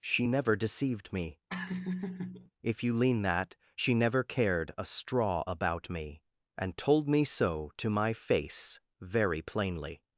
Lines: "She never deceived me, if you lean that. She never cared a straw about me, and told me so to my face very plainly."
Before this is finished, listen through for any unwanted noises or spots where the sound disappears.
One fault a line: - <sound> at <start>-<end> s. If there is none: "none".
- laugh at 1.5-2.5 s